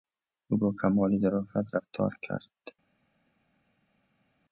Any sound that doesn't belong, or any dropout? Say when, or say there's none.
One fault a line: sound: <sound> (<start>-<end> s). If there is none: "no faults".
no faults